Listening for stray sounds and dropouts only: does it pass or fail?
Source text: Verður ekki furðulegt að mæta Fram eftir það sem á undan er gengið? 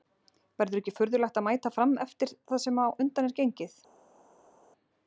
pass